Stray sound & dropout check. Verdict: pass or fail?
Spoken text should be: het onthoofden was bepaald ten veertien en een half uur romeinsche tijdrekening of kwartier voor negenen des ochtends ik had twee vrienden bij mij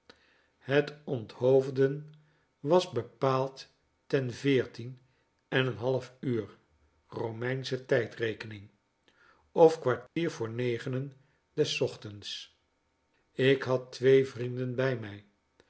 fail